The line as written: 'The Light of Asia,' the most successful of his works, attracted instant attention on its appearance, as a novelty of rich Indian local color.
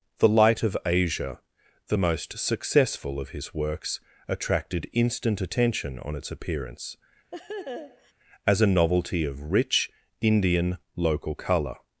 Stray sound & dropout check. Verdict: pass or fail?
fail